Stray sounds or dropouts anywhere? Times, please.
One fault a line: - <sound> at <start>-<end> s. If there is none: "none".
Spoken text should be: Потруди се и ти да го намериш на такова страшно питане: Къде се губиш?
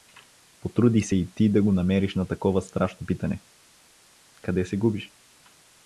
none